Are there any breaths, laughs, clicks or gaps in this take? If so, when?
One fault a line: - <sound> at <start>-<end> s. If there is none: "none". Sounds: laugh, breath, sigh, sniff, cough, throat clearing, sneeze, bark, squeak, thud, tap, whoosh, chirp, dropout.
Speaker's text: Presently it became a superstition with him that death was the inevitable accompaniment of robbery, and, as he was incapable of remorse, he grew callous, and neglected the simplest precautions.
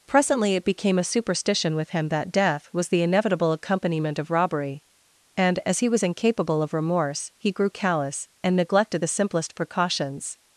none